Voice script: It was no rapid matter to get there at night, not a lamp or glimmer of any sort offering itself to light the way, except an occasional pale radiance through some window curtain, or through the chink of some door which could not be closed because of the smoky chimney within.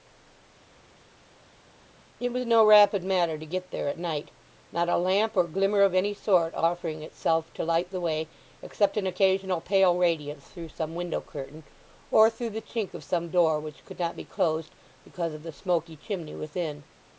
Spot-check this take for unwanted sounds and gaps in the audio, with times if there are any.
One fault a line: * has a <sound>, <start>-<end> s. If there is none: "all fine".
all fine